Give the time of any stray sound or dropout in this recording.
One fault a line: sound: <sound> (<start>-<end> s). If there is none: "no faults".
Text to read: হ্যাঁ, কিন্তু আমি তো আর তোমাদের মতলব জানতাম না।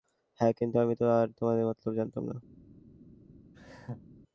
sound: laugh (3.5-4.1 s)